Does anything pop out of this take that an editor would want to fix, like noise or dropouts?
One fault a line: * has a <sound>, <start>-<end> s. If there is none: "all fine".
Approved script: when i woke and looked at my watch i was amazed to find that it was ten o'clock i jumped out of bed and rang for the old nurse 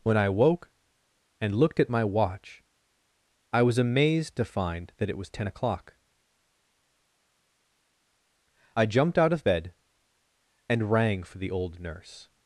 all fine